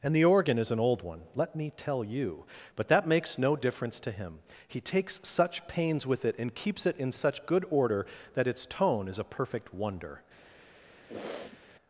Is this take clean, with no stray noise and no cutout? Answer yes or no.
no